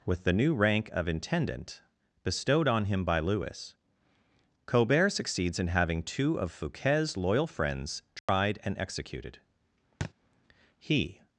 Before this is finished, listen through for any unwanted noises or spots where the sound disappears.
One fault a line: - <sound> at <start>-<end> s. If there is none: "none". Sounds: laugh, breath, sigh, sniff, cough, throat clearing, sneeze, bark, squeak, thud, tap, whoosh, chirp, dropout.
- dropout at 8.2-8.3 s
- thud at 10.0-10.1 s